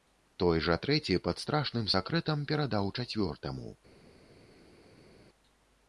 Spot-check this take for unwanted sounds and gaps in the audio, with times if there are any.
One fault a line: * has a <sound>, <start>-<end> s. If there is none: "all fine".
all fine